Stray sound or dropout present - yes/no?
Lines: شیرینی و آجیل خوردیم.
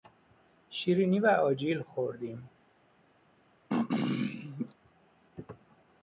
yes